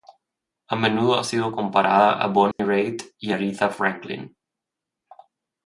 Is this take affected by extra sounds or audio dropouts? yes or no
yes